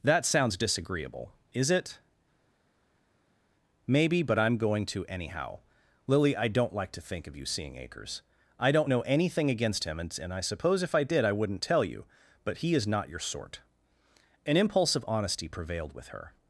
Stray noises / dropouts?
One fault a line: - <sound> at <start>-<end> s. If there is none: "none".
none